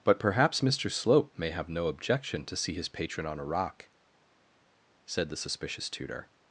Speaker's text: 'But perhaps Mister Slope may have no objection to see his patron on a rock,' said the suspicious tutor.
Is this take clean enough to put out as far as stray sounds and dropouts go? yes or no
yes